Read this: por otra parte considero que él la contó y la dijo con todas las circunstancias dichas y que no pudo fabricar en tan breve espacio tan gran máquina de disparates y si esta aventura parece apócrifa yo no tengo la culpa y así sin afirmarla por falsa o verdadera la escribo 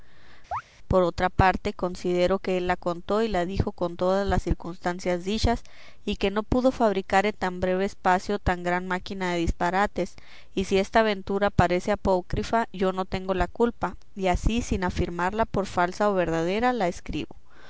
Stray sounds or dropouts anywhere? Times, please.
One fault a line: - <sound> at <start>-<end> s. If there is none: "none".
- chirp at 0.5-0.6 s